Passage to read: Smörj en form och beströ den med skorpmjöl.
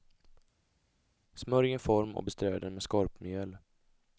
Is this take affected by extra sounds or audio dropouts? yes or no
no